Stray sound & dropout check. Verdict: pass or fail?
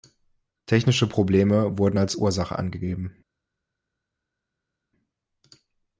pass